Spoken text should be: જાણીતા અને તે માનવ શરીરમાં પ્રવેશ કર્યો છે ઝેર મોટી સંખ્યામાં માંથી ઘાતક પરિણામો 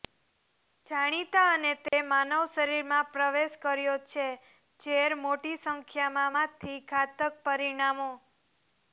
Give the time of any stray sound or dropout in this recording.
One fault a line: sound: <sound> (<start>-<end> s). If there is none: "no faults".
sound: dropout (1.9-1.9 s)